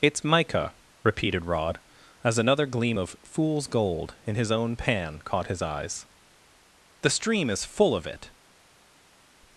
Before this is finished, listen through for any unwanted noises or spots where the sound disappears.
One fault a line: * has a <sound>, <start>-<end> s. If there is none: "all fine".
all fine